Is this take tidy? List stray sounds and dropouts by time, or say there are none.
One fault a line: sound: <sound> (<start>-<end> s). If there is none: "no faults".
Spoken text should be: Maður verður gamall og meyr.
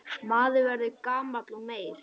no faults